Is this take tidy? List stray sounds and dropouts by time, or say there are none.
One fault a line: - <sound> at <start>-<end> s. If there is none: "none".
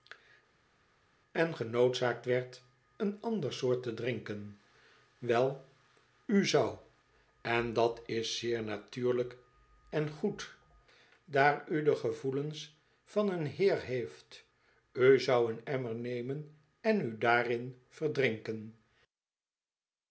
none